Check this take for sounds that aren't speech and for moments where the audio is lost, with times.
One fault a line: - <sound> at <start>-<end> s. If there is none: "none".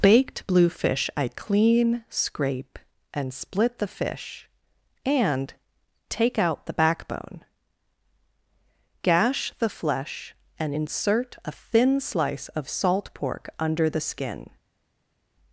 none